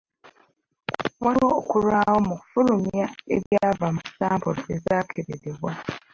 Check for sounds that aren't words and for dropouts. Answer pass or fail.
fail